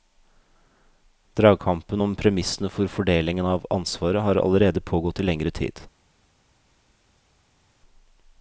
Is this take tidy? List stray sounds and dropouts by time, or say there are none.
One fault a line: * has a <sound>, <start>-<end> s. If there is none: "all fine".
all fine